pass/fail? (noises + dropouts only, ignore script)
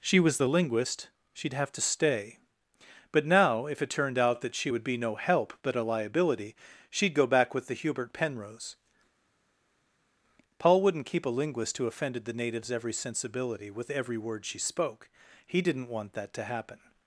pass